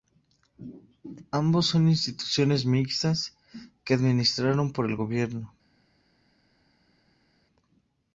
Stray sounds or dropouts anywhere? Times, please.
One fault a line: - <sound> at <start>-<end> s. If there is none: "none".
none